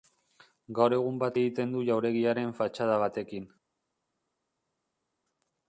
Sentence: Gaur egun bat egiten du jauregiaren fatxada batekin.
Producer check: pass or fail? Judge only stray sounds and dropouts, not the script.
pass